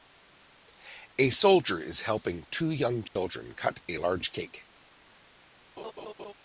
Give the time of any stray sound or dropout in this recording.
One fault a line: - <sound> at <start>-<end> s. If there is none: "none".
- dropout at 3.1-3.2 s
- laugh at 5.8-6.3 s